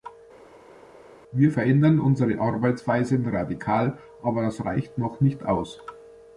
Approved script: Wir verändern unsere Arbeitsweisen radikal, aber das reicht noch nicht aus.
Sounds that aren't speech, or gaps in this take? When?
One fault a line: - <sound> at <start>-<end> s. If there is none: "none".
none